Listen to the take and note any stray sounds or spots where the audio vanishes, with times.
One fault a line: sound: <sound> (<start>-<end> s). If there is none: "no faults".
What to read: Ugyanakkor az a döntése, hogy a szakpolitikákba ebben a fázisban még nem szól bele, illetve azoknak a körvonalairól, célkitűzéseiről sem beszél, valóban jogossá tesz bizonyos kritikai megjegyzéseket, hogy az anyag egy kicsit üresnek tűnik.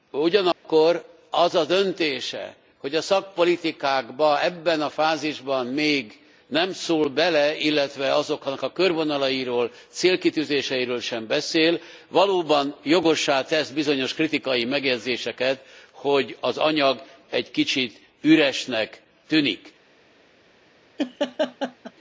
sound: dropout (0.5-0.6 s)
sound: laugh (21.0-21.9 s)